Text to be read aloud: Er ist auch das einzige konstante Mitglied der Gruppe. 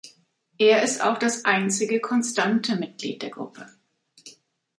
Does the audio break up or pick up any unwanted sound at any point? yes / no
no